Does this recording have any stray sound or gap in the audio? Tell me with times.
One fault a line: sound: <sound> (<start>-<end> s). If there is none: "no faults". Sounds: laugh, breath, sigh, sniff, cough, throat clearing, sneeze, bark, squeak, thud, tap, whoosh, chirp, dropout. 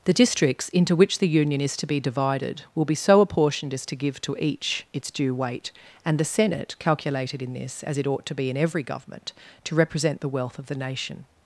no faults